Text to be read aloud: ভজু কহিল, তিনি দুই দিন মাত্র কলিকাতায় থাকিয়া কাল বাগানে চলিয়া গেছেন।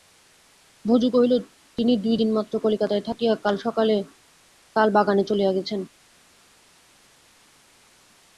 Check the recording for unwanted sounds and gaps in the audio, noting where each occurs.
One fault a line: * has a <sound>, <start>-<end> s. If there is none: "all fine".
all fine